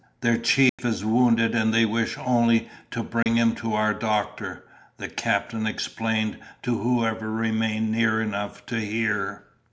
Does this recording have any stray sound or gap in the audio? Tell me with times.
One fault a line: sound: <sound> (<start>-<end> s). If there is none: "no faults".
sound: dropout (0.7-0.8 s)
sound: dropout (3.2-3.3 s)